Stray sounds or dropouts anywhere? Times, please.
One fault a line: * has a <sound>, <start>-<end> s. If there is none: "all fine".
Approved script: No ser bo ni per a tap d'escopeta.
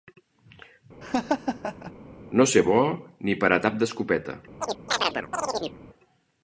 * has a laugh, 1.0-1.9 s
* has a chirp, 4.6-5.8 s